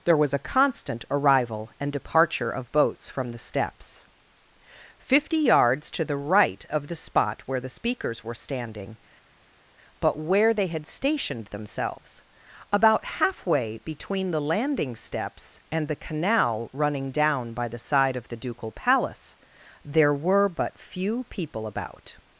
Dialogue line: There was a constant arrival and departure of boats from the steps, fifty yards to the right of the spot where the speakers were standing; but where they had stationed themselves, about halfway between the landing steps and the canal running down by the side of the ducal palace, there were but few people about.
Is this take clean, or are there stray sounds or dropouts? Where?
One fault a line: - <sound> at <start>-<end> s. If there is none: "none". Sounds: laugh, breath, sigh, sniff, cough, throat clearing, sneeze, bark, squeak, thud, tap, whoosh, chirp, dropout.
none